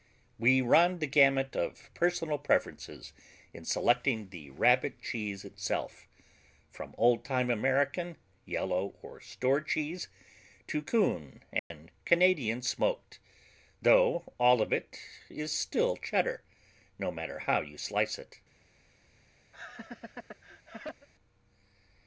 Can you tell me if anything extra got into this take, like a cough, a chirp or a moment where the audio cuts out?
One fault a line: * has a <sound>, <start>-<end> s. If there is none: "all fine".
* has a dropout, 11.6-11.7 s
* has a laugh, 19.5-21.1 s